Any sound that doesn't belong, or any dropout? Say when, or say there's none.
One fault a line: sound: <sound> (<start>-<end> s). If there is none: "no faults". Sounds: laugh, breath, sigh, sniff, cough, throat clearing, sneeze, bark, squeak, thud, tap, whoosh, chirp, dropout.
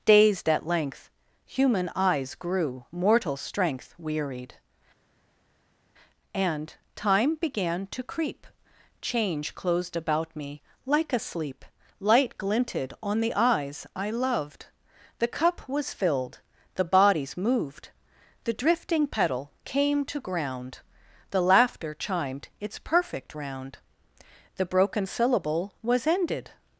no faults